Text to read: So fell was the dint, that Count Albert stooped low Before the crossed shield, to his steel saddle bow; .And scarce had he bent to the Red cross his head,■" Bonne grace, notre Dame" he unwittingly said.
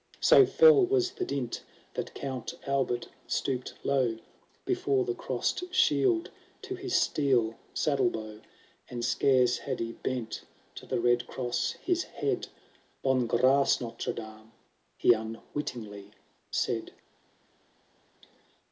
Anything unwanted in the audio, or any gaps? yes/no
no